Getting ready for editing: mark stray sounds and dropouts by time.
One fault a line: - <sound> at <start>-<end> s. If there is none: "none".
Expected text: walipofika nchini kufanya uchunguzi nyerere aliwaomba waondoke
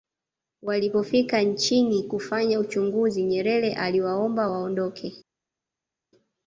none